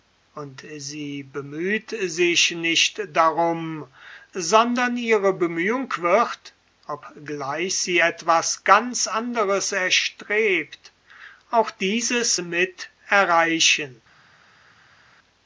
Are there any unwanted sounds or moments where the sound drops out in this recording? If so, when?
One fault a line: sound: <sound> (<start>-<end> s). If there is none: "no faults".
no faults